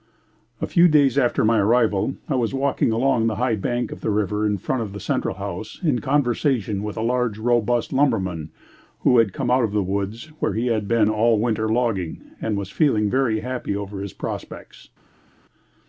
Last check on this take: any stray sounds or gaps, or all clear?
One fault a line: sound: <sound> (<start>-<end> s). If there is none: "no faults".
no faults